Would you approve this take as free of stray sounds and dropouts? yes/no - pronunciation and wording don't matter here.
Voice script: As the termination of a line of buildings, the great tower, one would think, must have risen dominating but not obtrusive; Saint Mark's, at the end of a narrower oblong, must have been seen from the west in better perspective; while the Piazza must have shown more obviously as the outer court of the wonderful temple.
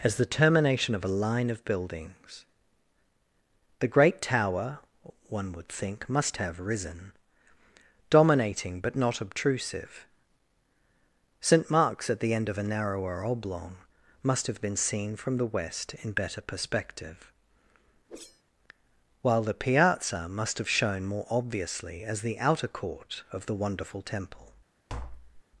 no